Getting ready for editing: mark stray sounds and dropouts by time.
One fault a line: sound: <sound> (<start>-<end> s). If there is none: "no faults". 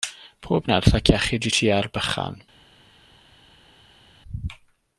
no faults